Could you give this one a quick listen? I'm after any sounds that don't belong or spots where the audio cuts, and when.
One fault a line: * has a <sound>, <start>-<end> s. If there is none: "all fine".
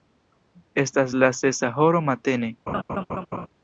* has a laugh, 2.7-3.5 s